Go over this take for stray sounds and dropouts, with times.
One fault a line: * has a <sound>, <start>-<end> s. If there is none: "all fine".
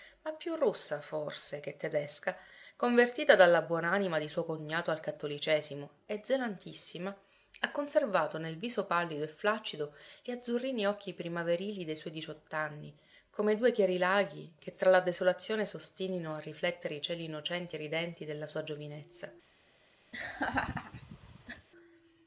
* has a laugh, 20.1-21.7 s